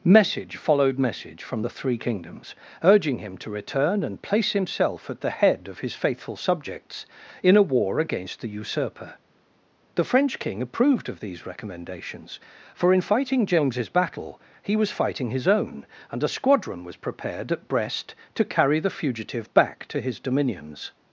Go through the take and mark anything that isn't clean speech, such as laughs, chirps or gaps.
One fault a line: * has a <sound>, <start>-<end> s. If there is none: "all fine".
all fine